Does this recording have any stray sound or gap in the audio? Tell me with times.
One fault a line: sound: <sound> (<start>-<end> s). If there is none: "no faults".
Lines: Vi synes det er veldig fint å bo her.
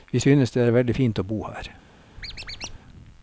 sound: squeak (2.2-2.8 s)